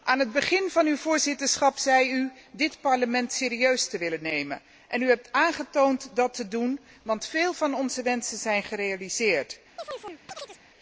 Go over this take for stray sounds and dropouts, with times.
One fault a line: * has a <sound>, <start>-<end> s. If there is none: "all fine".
* has a chirp, 9.8-10.6 s